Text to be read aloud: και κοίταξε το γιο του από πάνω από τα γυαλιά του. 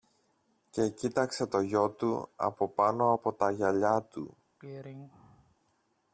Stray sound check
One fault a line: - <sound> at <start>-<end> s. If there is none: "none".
- throat clearing at 4.6-5.6 s